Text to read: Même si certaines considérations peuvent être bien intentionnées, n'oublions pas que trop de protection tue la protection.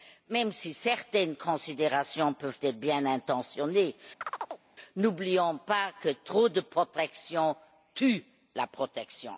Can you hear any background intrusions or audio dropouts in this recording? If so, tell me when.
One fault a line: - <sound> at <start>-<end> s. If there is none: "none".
- chirp at 4.2-4.6 s